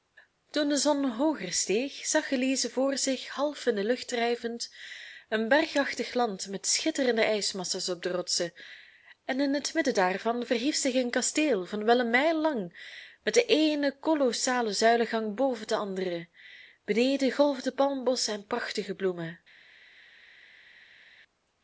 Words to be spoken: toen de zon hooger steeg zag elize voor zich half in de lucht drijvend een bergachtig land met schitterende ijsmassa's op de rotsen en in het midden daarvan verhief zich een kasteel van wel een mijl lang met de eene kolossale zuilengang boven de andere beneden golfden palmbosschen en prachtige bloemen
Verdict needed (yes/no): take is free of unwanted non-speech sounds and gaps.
yes